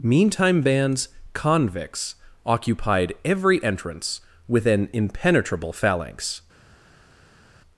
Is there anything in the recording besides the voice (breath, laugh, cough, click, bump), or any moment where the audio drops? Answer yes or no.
no